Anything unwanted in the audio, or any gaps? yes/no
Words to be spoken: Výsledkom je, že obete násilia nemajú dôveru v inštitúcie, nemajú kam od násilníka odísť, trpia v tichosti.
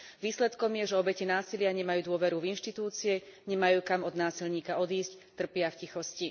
no